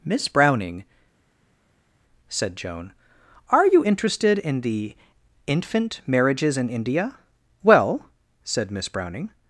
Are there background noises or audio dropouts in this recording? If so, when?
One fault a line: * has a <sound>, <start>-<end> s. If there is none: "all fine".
all fine